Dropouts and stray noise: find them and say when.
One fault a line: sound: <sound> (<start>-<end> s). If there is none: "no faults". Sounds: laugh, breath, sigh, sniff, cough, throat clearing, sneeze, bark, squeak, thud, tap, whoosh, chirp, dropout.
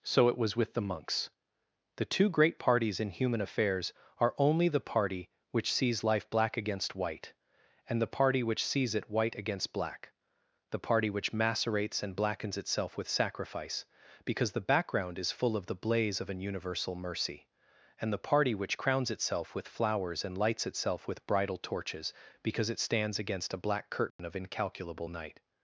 sound: dropout (24.1-24.2 s)